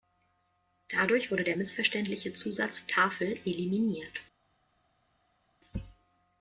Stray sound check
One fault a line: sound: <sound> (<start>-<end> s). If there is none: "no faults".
no faults